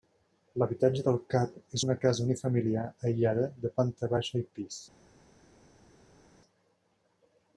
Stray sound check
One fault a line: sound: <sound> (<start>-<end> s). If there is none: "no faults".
no faults